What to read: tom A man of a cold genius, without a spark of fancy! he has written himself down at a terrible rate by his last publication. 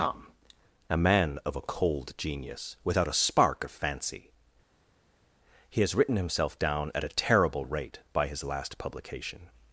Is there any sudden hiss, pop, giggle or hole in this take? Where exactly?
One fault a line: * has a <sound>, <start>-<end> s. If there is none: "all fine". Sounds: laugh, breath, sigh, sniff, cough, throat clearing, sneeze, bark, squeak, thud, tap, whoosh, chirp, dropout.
all fine